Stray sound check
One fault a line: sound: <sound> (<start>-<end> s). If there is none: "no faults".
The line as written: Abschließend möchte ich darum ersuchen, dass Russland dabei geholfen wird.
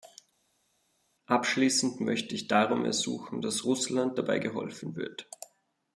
no faults